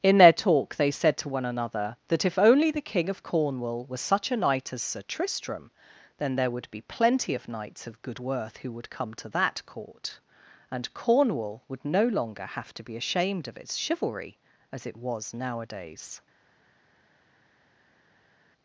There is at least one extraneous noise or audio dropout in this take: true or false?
false